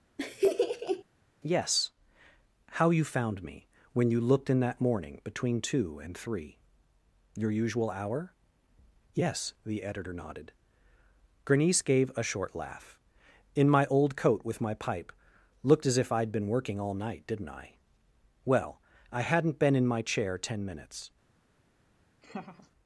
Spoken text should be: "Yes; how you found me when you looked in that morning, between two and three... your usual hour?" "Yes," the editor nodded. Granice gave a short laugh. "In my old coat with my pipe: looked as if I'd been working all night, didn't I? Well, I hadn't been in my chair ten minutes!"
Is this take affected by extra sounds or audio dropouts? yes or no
yes